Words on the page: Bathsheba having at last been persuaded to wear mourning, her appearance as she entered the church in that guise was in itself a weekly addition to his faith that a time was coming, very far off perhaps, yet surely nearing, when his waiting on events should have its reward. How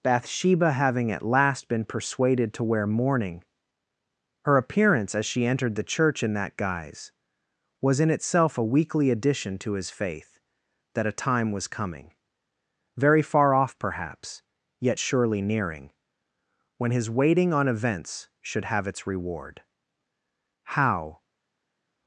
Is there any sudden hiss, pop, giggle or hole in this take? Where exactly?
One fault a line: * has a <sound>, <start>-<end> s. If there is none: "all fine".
all fine